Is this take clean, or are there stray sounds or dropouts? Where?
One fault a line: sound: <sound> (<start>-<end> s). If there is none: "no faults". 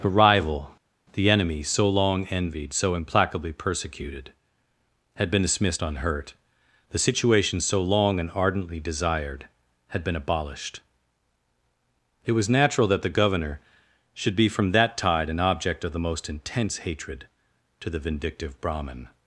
no faults